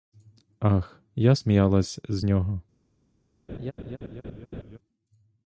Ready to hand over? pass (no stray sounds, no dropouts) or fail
fail